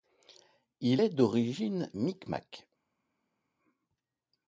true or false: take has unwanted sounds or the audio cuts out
false